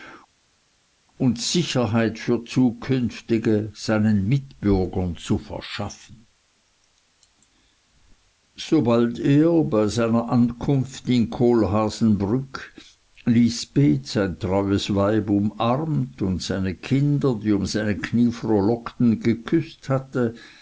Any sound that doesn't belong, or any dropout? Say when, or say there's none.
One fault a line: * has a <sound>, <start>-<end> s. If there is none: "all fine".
all fine